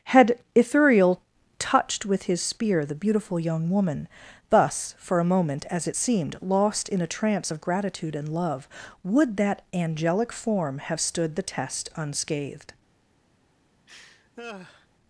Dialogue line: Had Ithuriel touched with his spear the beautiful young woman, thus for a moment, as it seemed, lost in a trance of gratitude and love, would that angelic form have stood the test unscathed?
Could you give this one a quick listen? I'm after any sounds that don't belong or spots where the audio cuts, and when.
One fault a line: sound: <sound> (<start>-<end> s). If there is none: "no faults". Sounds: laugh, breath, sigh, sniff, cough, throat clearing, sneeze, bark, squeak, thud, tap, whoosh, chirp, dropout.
sound: laugh (13.9-14.9 s)